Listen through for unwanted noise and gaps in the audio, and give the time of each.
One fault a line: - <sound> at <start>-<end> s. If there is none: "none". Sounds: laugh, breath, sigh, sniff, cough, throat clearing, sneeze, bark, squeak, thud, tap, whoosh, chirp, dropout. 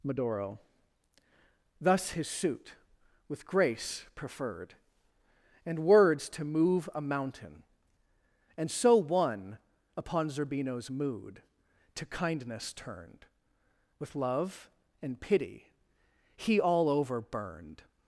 none